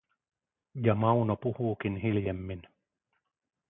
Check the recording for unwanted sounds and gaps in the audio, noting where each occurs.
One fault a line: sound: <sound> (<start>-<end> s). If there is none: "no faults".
no faults